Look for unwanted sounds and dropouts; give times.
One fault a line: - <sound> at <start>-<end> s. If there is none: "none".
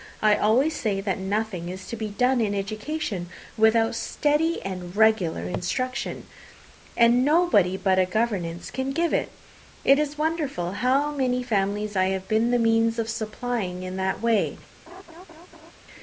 - laugh at 14.9-15.7 s